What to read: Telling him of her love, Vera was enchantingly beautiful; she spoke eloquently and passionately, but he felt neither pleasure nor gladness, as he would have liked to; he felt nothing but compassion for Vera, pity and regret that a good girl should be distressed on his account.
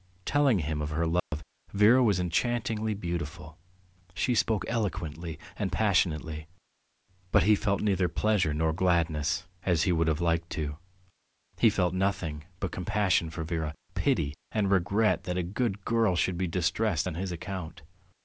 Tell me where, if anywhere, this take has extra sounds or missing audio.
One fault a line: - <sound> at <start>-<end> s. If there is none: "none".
- dropout at 1.2-1.3 s